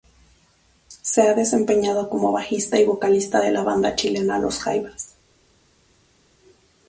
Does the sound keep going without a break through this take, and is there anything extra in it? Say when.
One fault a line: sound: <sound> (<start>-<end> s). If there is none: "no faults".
no faults